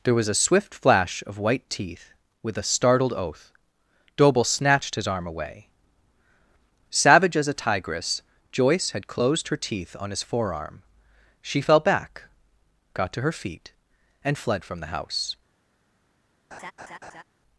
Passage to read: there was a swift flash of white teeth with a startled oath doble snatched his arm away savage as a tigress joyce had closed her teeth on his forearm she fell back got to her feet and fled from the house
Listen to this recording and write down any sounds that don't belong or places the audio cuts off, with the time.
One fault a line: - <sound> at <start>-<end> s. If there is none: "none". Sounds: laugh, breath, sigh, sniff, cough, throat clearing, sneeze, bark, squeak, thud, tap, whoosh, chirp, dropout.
- laugh at 16.5-17.2 s